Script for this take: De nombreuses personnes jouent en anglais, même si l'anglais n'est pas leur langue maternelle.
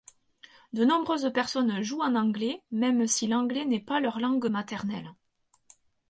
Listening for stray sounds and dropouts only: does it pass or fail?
pass